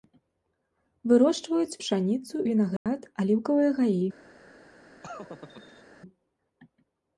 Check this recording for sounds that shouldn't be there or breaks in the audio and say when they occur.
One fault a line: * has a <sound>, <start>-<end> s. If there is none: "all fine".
* has a dropout, 2.8-2.9 s
* has a laugh, 5.0-5.8 s